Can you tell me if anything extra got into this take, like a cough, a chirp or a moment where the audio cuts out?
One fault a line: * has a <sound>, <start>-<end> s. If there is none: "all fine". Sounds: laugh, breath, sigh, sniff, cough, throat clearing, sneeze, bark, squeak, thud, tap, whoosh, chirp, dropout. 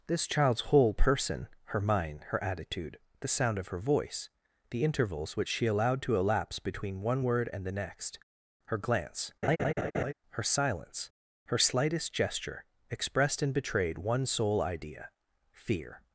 * has a laugh, 9.4-10.1 s